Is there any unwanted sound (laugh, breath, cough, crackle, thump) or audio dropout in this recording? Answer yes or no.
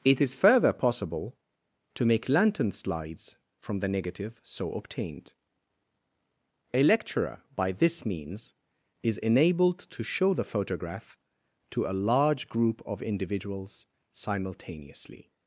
no